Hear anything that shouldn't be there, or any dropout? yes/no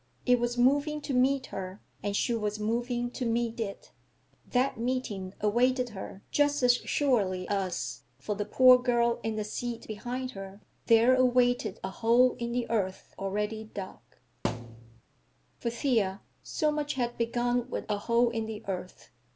yes